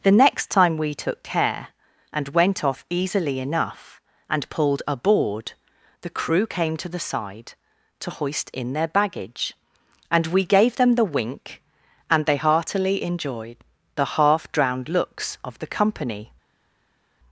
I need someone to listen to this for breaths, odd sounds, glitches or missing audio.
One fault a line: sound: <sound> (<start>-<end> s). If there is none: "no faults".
no faults